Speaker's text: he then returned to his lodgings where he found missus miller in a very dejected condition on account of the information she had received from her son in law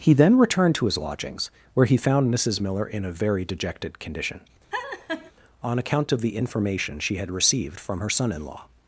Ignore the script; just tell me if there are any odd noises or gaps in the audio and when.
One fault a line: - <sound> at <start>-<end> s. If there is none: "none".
- laugh at 4.7-5.3 s